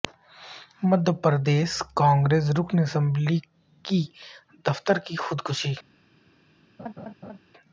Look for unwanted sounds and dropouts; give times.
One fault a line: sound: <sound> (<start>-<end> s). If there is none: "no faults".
sound: laugh (6.8-7.4 s)